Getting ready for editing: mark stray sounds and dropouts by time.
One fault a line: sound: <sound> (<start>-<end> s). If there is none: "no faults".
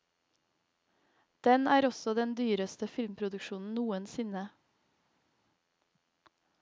no faults